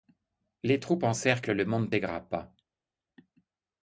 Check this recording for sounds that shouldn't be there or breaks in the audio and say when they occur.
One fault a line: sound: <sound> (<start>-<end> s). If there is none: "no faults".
no faults